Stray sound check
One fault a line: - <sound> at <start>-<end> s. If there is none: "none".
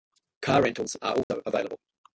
- dropout at 1.2-1.3 s